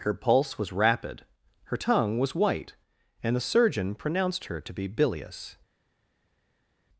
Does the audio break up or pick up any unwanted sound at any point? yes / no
no